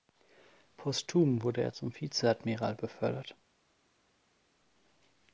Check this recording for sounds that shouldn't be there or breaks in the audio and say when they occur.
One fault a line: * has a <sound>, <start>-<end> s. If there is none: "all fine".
all fine